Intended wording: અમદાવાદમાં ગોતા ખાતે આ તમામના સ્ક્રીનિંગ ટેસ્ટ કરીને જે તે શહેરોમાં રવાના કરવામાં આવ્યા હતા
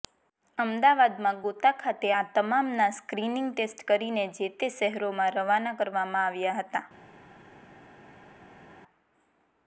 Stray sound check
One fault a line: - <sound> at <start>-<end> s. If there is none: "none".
none